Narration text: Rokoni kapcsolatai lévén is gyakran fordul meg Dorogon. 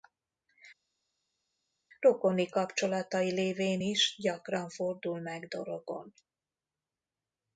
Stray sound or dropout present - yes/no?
no